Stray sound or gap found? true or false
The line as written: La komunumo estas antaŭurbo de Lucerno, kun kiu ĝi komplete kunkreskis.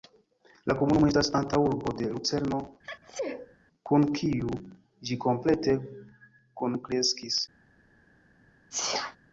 true